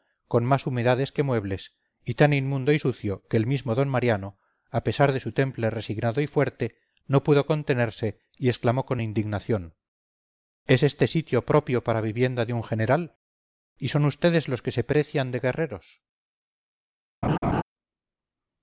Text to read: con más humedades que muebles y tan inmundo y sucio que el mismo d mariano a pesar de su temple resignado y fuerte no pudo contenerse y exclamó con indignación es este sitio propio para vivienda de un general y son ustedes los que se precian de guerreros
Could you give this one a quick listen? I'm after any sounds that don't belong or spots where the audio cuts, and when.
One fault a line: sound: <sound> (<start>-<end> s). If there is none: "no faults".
sound: laugh (17.2-17.6 s)